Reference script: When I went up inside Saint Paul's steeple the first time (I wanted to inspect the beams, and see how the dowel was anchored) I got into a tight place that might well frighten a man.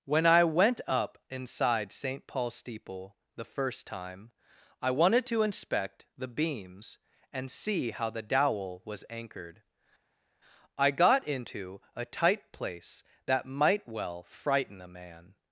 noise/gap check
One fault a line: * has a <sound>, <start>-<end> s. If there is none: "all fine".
all fine